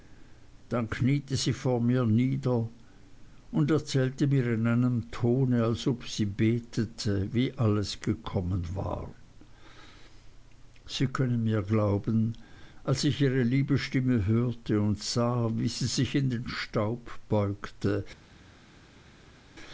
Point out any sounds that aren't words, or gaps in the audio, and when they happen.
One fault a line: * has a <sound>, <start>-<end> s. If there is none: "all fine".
all fine